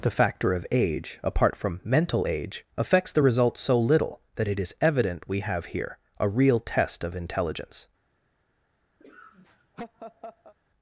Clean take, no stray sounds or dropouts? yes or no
no